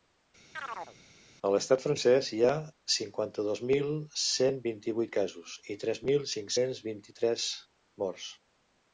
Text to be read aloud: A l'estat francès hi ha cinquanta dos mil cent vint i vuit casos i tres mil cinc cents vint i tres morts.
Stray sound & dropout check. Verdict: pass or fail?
fail